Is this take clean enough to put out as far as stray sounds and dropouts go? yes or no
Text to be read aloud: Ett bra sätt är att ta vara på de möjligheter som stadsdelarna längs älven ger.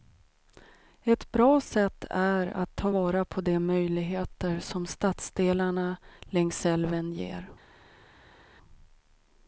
yes